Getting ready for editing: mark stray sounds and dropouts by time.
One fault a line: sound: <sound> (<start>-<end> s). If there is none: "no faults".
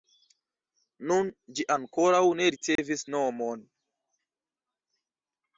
sound: dropout (2.8-2.8 s)